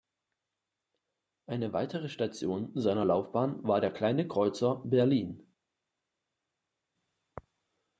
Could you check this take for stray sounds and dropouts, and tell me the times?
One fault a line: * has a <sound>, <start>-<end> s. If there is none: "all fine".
all fine